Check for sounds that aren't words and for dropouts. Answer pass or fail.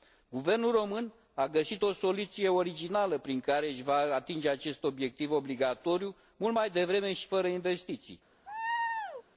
fail